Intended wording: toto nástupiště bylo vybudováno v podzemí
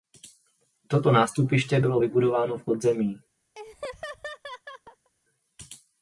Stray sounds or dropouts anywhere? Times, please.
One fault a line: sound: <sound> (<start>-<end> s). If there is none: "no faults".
sound: laugh (3.6-5.1 s)